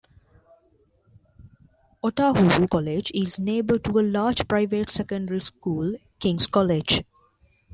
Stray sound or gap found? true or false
false